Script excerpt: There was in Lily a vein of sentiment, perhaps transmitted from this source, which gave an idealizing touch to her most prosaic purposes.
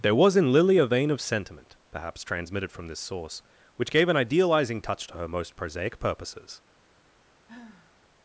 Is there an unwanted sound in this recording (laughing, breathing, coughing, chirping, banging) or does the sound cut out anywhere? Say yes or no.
yes